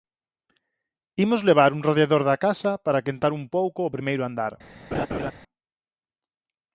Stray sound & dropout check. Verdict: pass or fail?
fail